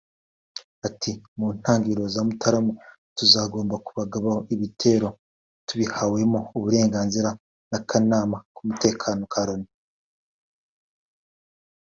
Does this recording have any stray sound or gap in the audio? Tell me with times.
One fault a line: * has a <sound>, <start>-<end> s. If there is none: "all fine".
all fine